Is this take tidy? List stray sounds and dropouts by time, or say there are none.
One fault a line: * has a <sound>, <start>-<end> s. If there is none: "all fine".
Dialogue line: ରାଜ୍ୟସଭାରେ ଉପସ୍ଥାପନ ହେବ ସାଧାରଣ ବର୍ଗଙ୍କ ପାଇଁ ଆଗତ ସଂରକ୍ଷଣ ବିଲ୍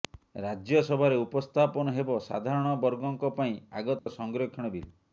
* has a dropout, 4.0-4.1 s